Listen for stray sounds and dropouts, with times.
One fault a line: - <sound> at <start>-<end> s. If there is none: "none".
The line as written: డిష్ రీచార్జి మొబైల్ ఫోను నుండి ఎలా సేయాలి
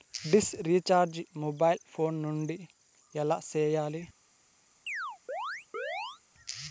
- chirp at 4.9-6.2 s